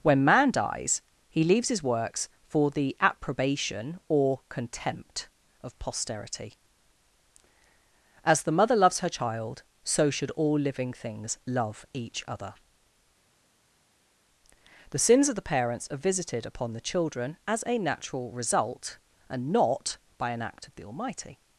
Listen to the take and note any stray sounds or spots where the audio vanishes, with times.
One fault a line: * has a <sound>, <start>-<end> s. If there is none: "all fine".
all fine